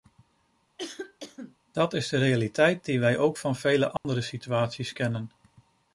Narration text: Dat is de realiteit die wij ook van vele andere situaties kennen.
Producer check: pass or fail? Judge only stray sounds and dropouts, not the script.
fail